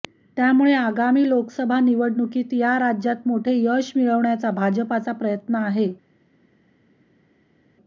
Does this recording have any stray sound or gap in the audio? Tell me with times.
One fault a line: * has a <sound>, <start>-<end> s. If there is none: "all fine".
all fine